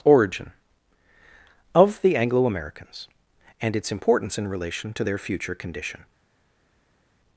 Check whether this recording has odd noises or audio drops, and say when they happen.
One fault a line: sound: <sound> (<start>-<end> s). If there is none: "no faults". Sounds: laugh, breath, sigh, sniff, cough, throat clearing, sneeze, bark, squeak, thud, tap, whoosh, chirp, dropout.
no faults